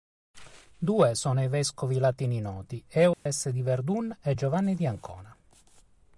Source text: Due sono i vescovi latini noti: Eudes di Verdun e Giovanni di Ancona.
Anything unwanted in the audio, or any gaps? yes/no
yes